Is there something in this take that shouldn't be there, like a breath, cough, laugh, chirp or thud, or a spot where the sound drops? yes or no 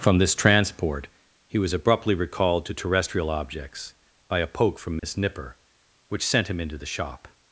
yes